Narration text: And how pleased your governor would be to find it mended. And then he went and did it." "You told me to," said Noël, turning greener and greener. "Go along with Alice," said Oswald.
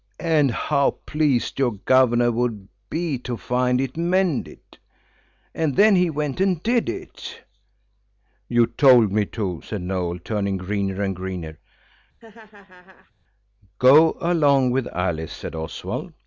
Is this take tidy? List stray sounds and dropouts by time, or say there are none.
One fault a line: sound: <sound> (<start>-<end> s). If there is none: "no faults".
sound: laugh (12.2-13.1 s)